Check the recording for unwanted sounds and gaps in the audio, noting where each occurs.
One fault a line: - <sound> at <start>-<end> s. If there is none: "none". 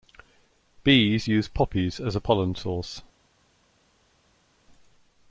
none